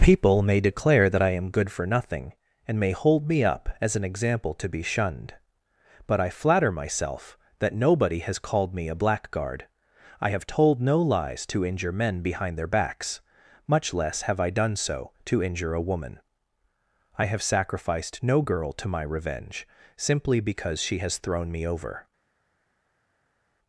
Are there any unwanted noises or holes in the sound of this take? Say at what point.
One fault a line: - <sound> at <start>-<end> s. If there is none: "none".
none